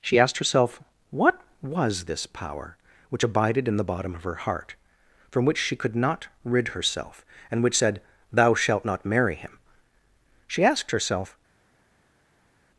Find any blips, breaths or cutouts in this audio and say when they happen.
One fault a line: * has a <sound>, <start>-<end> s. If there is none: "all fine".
all fine